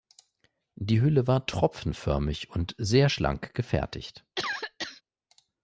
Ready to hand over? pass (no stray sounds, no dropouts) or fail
fail